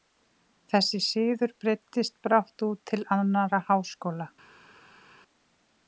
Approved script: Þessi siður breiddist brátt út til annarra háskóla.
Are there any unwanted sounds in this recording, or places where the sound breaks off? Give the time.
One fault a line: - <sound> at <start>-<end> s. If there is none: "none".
none